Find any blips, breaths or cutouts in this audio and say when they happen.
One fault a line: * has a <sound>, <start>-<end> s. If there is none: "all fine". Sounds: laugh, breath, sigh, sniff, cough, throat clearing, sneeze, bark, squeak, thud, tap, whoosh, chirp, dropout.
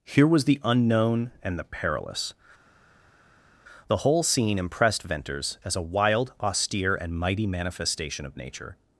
all fine